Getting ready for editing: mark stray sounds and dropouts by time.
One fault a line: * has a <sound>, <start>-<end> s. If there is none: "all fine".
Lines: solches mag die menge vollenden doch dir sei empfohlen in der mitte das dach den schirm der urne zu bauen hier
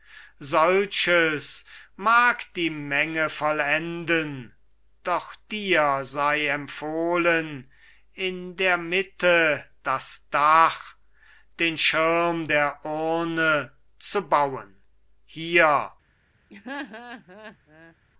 * has a laugh, 16.5-18.0 s